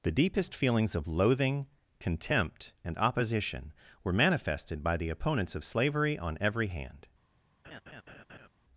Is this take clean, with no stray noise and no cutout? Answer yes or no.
no